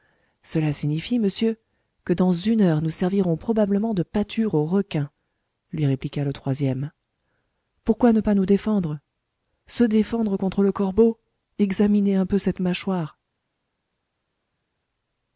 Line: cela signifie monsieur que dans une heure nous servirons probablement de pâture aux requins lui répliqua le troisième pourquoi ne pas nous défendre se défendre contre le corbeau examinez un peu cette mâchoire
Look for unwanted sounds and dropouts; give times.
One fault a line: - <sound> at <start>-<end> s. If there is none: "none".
none